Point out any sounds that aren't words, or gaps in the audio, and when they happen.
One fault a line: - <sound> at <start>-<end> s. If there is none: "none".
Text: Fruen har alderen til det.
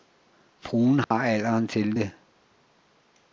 - dropout at 1.0-1.1 s